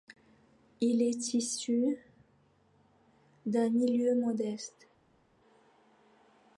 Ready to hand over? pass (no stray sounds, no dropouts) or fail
pass